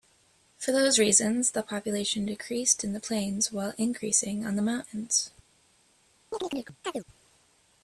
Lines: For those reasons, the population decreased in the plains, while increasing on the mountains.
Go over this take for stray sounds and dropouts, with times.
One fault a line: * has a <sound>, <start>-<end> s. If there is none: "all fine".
* has a chirp, 6.3-7.0 s